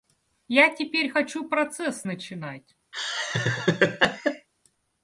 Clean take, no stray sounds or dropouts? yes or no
no